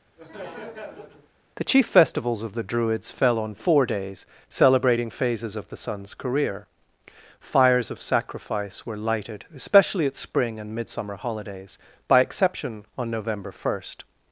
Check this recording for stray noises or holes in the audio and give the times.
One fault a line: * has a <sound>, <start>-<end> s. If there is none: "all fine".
* has a laugh, 0.2-1.3 s